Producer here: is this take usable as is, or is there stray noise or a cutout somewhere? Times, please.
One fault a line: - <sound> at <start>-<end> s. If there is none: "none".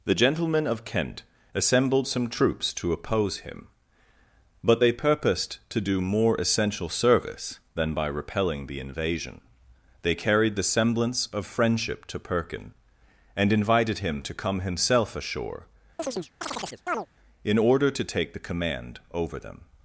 - chirp at 16.0-17.1 s